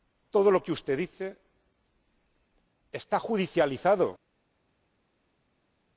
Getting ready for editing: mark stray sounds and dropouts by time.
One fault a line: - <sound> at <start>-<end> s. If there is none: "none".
none